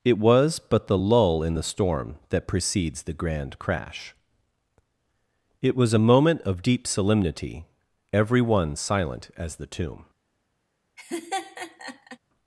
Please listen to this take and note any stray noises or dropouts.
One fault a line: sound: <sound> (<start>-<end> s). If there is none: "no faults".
sound: laugh (11.0-12.2 s)